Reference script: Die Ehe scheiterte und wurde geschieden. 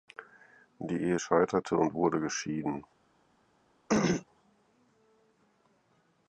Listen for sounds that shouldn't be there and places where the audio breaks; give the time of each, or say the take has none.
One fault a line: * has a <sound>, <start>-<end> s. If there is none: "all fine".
* has a throat clearing, 3.9-4.3 s